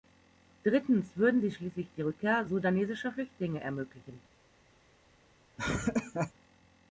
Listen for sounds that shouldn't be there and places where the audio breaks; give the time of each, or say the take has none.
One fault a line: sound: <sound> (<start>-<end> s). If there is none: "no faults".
sound: laugh (5.6-6.3 s)